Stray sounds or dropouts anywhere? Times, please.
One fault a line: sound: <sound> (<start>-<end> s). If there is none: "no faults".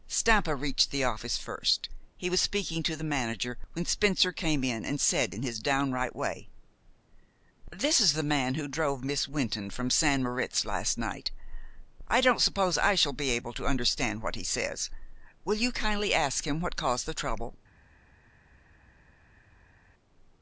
no faults